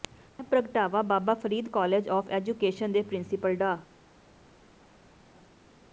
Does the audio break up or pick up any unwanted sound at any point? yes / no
no